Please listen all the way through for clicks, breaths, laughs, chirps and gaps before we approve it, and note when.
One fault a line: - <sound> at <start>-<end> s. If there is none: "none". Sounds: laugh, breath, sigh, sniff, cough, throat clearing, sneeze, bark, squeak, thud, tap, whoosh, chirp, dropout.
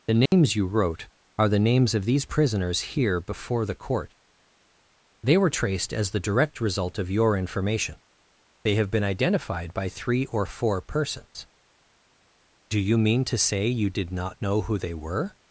- dropout at 0.3-0.3 s